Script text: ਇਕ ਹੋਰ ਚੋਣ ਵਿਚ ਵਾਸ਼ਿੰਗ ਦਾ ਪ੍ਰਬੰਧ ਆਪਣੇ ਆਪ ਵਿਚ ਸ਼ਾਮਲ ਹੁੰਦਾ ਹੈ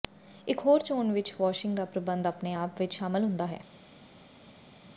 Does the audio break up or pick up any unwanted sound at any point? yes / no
no